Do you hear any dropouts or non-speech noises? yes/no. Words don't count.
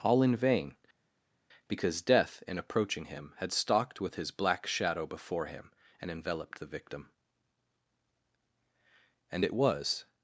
no